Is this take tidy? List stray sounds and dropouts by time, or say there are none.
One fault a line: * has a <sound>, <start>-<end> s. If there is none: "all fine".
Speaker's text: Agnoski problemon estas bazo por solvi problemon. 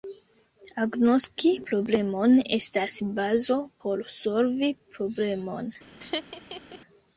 * has a laugh, 6.0-6.8 s